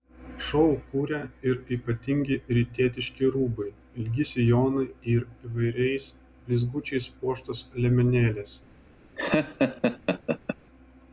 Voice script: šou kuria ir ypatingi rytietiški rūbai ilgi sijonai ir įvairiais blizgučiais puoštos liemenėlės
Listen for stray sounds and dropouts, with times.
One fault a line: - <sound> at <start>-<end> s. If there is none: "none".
- laugh at 9.2-10.6 s